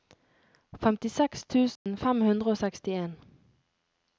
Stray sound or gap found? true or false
true